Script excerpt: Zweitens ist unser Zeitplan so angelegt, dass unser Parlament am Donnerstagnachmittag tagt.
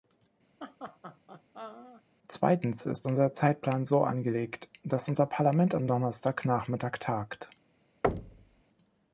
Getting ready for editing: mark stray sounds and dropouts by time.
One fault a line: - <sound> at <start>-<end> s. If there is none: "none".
- laugh at 0.6-2.0 s
- thud at 8.0-8.6 s